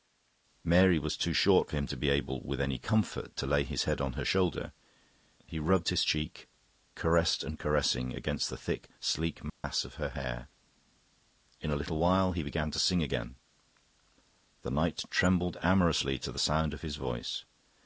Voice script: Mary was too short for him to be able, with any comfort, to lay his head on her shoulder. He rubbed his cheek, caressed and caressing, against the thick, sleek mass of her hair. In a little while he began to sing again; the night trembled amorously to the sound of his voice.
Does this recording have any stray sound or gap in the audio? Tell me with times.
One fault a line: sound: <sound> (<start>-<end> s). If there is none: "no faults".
sound: dropout (9.5-9.6 s)